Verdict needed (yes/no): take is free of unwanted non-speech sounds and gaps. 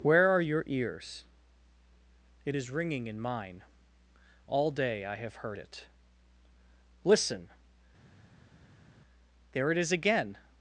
yes